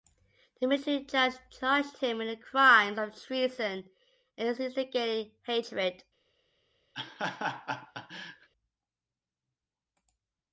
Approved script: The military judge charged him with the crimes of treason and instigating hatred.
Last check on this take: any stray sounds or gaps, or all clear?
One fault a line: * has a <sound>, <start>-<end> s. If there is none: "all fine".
* has a laugh, 6.9-8.5 s